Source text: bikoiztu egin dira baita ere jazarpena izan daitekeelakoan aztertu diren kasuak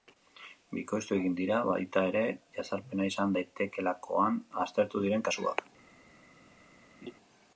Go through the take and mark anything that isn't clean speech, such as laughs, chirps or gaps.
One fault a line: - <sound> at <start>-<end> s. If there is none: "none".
- laugh at 7.0-7.1 s